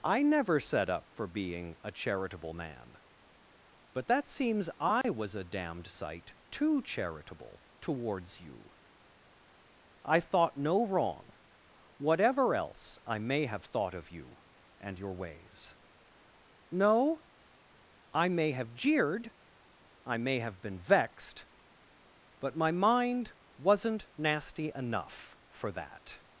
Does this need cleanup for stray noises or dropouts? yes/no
yes